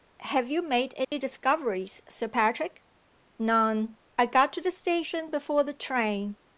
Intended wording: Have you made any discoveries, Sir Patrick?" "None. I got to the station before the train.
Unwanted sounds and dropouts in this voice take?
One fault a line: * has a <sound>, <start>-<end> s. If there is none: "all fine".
* has a dropout, 1.0-1.1 s